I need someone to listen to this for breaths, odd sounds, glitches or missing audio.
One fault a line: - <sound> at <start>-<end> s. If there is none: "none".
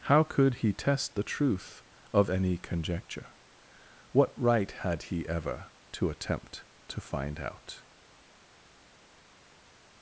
none